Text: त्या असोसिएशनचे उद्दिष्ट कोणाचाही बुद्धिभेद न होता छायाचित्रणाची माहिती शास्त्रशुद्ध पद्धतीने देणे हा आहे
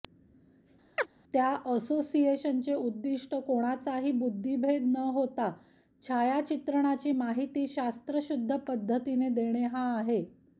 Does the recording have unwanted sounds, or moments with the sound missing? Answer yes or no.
yes